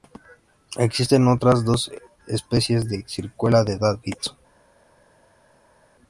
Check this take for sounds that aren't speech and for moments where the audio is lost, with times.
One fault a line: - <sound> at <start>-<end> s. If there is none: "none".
none